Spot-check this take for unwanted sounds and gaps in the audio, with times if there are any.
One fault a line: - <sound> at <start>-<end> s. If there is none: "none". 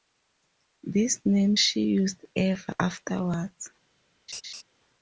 - laugh at 4.3-4.6 s